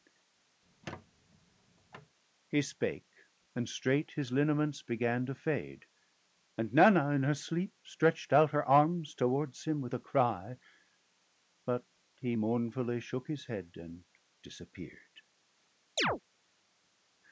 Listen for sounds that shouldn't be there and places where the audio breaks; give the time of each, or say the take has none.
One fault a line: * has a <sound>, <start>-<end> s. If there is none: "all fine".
* has a squeak, 0.6-2.2 s
* has a chirp, 16.0-16.2 s